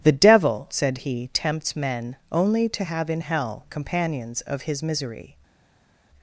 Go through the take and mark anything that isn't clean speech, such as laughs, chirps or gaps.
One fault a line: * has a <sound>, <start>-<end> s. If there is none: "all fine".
all fine